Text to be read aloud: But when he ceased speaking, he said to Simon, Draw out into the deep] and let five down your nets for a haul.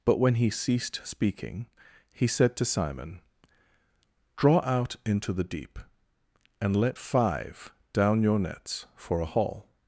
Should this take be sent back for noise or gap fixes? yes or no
no